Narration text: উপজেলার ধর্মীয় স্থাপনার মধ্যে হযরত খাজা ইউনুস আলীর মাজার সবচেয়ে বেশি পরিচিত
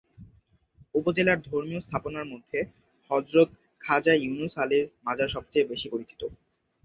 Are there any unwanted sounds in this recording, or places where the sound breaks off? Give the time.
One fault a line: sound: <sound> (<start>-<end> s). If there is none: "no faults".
no faults